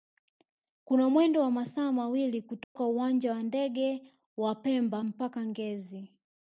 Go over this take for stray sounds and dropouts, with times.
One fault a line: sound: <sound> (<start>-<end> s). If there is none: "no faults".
sound: dropout (2.6-2.8 s)